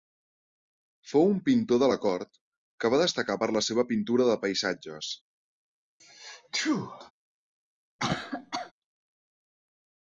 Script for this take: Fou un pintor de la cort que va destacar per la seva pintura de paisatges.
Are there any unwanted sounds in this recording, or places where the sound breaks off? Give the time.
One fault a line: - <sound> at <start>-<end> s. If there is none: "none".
- sneeze at 6.0-7.1 s
- cough at 8.0-8.7 s